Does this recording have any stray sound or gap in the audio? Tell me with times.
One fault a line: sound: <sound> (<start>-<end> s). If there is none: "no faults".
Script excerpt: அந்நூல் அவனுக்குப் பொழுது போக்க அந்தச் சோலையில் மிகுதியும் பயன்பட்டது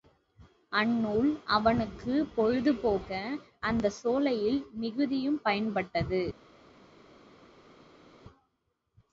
no faults